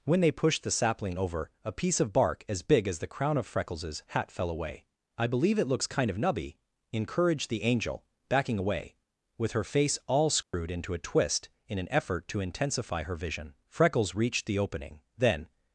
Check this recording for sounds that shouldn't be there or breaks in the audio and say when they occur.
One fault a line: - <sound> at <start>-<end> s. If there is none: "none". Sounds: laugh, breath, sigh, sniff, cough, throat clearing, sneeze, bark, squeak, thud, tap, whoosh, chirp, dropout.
- dropout at 10.4-10.5 s